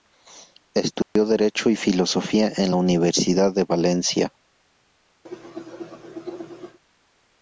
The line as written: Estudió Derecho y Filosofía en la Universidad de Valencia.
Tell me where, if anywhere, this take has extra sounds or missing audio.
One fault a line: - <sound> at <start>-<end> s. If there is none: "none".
- dropout at 1.0-1.2 s
- cough at 5.3-6.8 s